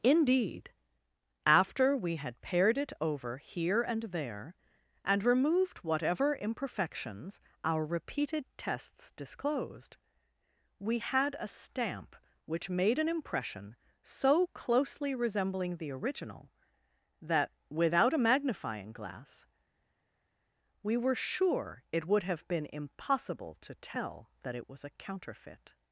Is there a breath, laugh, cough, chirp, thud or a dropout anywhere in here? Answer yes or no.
no